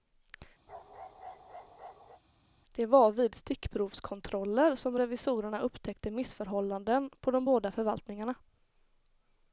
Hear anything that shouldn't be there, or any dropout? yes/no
yes